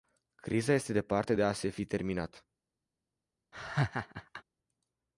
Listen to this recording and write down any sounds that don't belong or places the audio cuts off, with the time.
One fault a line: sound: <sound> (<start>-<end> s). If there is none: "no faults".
sound: laugh (3.5-4.4 s)